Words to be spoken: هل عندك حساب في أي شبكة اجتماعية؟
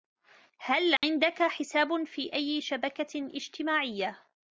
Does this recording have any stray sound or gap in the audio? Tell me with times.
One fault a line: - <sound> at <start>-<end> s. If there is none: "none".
- dropout at 1.0-1.0 s